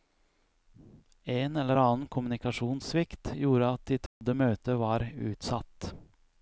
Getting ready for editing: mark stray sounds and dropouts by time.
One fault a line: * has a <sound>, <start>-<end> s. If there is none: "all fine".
* has a dropout, 4.1-4.2 s